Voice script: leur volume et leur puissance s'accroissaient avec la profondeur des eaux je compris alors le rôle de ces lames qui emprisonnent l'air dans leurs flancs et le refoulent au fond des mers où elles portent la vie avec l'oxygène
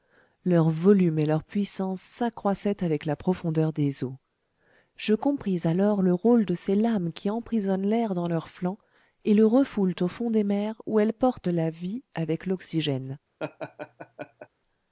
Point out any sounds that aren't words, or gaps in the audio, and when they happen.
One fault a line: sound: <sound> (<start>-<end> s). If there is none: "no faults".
sound: laugh (13.4-14.5 s)